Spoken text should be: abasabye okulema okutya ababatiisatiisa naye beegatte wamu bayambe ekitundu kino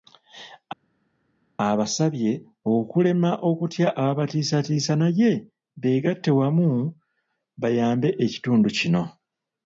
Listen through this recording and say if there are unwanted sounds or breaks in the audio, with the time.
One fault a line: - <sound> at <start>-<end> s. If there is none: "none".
none